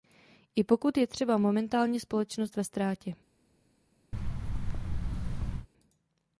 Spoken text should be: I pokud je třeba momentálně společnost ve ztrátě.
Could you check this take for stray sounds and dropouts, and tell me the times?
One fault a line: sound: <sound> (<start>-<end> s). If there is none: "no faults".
sound: thud (4.1-5.7 s)